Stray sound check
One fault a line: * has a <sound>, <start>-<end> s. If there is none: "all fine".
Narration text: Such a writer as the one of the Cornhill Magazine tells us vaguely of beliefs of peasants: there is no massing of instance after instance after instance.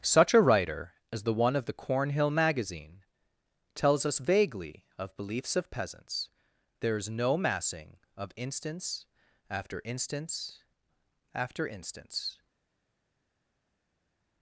all fine